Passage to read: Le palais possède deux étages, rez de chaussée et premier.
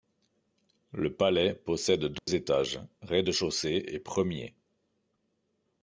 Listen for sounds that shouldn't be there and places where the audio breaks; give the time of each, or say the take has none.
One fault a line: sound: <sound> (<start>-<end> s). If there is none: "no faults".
sound: dropout (2.2-2.3 s)